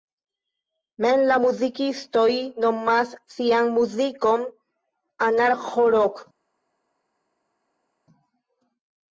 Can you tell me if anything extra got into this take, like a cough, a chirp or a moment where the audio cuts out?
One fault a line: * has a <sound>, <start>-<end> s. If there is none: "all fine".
all fine